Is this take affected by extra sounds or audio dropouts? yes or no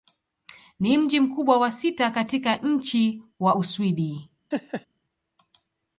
yes